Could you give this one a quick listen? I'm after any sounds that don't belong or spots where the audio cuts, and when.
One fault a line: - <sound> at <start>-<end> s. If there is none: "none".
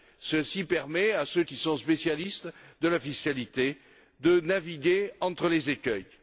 none